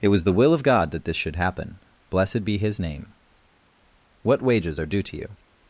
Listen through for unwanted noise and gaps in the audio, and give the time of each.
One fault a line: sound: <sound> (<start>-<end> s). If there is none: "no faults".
no faults